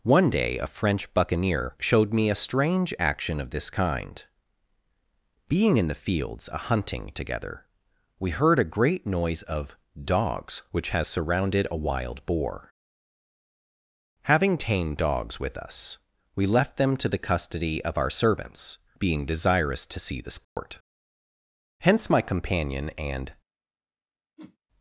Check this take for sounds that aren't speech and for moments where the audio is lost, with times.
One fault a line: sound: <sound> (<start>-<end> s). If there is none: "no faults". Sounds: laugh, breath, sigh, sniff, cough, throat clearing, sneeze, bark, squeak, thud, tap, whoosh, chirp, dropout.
sound: dropout (20.4-20.6 s)
sound: whoosh (24.4-24.6 s)